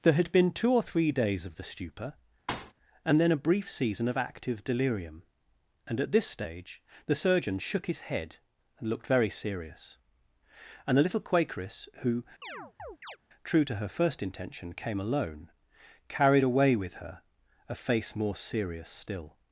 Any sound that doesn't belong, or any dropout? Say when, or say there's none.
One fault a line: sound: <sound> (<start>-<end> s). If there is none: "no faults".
sound: thud (2.5-2.7 s)
sound: chirp (12.4-13.2 s)